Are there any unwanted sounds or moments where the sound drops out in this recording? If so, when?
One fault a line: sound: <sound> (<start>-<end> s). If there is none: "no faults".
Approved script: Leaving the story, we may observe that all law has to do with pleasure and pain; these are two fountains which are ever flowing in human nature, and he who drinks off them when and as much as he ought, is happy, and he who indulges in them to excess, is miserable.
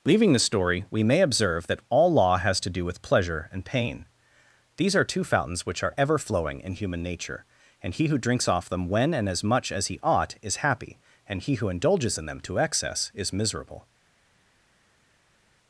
no faults